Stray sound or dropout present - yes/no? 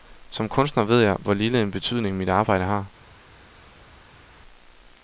no